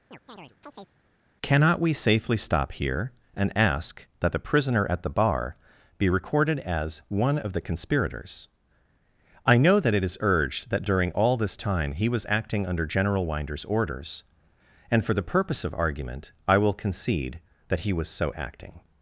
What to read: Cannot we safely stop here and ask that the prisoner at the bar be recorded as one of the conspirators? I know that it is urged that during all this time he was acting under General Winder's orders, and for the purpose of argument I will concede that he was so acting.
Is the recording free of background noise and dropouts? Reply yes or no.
no